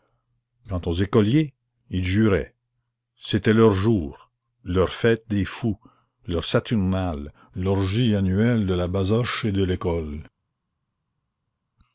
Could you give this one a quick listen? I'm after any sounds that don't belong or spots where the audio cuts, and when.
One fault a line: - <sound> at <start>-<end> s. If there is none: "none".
none